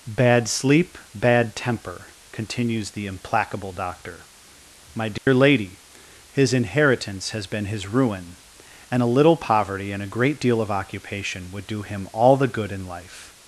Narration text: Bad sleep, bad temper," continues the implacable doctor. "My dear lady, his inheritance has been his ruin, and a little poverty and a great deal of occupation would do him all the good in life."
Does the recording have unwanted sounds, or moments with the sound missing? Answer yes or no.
yes